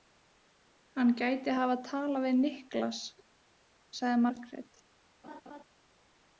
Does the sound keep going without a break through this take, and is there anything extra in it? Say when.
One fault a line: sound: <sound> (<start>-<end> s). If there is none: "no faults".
sound: laugh (5.2-5.6 s)